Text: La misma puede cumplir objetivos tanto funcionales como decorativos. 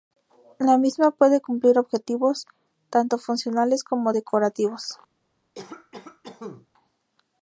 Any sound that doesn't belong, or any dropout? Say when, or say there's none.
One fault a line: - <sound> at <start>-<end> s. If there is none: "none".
- cough at 5.5-6.7 s